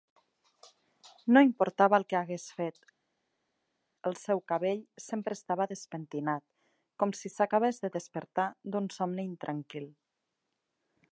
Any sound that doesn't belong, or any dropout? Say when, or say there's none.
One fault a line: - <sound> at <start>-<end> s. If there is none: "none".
none